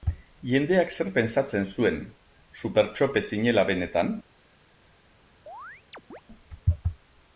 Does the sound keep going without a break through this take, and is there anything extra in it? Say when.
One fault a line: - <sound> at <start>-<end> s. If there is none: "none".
- chirp at 5.5-6.2 s